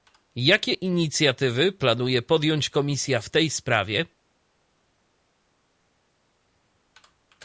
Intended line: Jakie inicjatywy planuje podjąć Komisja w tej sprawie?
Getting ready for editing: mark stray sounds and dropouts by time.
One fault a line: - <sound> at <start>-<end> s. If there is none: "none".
none